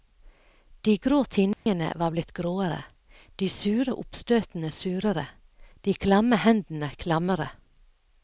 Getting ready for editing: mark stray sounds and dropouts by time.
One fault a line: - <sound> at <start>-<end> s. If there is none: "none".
- dropout at 1.5-1.7 s